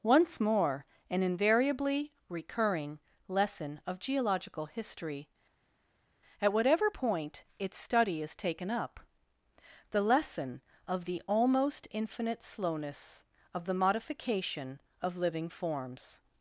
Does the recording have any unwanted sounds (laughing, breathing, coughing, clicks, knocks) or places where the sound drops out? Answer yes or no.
no